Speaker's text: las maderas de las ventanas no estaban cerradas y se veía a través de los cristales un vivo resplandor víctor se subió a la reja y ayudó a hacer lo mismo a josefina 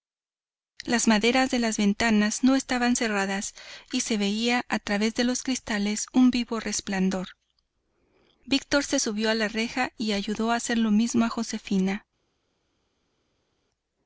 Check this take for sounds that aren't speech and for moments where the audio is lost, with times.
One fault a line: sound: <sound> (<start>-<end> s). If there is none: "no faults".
no faults